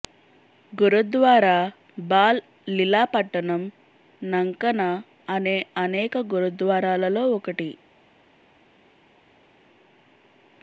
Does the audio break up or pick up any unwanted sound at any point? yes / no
no